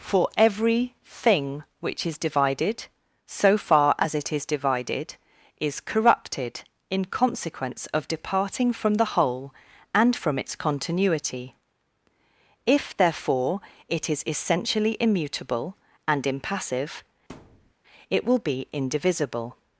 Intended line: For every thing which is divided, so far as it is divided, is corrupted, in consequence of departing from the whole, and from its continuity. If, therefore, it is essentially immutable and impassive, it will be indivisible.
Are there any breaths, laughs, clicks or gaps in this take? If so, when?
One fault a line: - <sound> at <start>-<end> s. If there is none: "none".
- thud at 17.3-17.7 s